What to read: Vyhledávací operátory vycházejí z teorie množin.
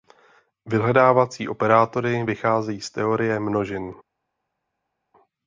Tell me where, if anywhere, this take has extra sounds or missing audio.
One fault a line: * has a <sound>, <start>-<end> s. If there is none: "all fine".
all fine